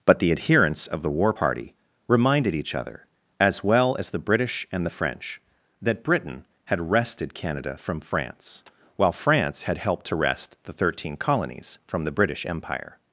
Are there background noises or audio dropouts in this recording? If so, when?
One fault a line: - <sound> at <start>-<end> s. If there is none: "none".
none